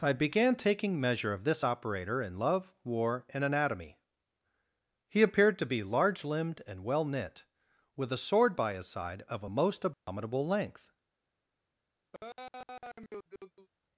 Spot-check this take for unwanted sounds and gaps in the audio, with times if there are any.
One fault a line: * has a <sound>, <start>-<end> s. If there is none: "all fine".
* has a dropout, 9.9-10.1 s
* has a laugh, 12.1-13.7 s